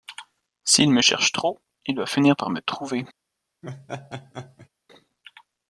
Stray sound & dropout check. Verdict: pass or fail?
fail